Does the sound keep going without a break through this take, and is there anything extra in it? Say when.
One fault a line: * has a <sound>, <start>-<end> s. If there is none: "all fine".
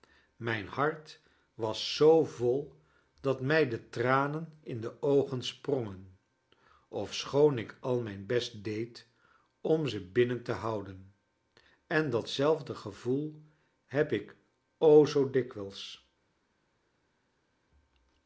all fine